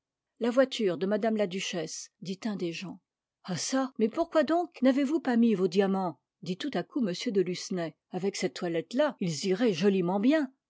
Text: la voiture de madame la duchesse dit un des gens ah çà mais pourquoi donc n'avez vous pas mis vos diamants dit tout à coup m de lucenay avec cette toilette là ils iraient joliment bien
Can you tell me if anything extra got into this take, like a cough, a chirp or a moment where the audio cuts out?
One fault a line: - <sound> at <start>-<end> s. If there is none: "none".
none